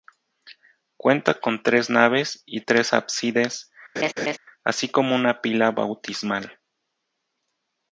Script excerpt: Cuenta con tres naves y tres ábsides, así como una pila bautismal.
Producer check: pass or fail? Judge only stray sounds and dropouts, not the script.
fail